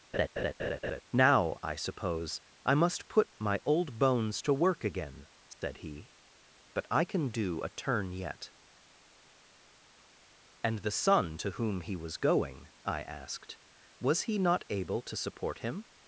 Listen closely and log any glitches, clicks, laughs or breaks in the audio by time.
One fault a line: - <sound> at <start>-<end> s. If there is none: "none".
- laugh at 0.1-1.0 s
- dropout at 5.5-5.6 s